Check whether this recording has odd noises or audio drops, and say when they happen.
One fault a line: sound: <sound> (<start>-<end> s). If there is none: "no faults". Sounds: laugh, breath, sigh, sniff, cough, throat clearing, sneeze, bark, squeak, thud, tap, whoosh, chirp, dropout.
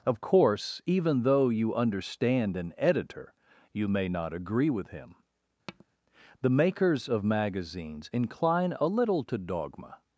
sound: tap (5.7-5.9 s)